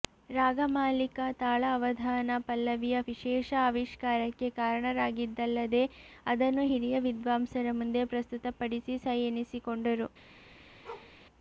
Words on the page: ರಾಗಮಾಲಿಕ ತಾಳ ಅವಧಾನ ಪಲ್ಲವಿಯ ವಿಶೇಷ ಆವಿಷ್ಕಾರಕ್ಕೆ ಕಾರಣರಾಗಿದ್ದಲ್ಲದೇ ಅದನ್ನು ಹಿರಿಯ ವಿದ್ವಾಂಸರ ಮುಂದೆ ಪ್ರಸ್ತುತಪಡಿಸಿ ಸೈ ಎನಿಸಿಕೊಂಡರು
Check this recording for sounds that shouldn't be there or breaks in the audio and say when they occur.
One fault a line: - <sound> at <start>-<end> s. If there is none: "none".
- bark at 10.8-11.1 s